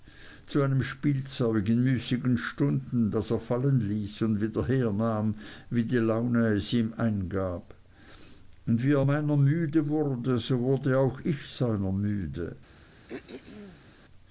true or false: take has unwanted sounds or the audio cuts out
true